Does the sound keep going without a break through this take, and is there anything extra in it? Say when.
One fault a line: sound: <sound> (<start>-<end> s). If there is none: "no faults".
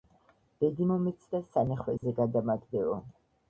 sound: dropout (2.0-2.0 s)